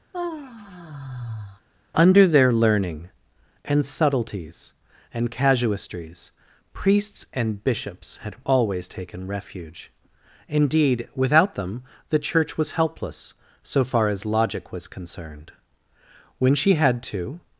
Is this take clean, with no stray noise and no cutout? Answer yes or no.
no